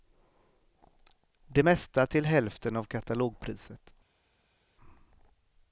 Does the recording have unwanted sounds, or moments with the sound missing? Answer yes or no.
no